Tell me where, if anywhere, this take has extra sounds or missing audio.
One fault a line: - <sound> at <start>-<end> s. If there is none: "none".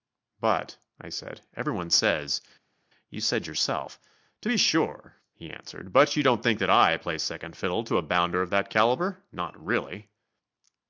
none